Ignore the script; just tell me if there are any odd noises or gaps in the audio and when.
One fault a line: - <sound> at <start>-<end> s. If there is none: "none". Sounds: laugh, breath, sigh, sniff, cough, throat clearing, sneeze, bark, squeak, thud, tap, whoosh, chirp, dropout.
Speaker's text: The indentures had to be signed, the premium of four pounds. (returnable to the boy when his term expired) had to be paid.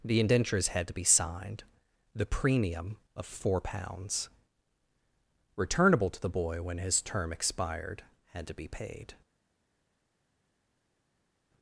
none